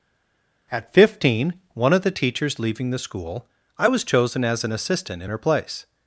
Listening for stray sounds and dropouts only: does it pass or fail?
pass